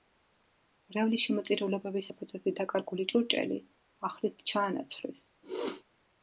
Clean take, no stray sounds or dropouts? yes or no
no